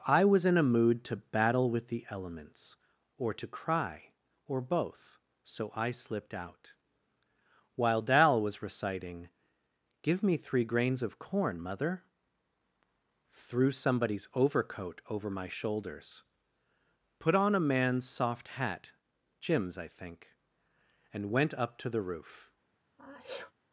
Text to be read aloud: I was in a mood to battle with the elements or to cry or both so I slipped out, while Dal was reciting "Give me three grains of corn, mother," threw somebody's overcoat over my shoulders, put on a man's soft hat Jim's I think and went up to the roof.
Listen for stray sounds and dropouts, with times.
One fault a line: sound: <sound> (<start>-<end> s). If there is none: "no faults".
sound: sneeze (23.0-23.5 s)